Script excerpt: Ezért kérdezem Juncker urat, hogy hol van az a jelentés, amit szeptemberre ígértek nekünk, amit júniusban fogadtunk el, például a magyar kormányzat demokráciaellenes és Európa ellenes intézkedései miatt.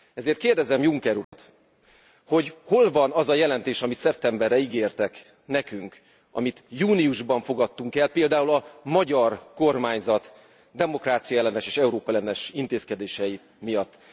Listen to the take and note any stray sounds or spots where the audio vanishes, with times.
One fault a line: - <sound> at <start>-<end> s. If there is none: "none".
- dropout at 1.2-1.3 s